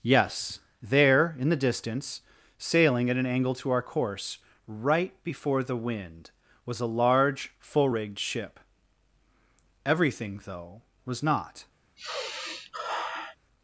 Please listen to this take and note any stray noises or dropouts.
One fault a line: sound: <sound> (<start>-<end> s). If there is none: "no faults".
sound: sigh (12.0-13.4 s)